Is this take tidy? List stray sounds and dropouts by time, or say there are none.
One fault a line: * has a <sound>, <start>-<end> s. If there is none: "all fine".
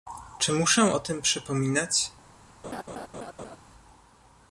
* has a laugh, 2.6-3.6 s